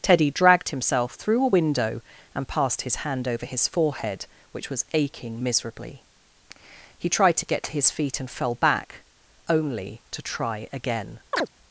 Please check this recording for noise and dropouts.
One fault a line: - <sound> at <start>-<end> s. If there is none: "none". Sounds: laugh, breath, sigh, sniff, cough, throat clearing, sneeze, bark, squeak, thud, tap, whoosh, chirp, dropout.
- chirp at 11.3-11.5 s